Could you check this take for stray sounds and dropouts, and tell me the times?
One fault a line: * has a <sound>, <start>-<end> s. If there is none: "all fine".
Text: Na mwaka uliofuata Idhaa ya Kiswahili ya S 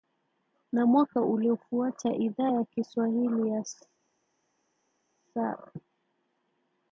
all fine